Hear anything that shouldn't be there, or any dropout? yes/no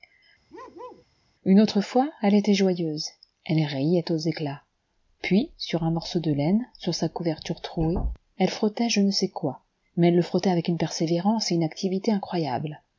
yes